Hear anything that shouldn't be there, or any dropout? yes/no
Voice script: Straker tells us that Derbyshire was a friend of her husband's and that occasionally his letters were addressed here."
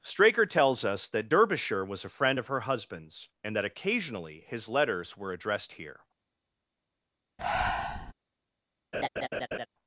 yes